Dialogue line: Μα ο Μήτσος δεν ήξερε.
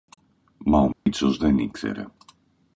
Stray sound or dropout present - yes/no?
yes